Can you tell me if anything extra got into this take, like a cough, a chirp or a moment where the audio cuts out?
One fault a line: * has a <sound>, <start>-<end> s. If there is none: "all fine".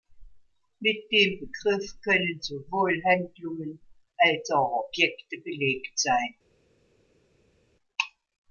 all fine